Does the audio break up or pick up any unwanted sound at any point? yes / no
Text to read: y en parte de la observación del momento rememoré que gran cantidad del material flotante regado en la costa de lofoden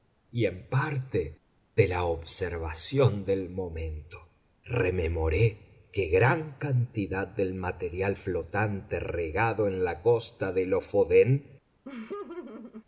yes